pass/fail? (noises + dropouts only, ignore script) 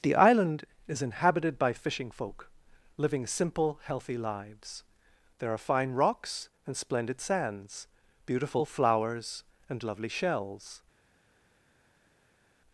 pass